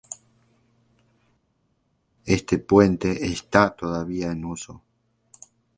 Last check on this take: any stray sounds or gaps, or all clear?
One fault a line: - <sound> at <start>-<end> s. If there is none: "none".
none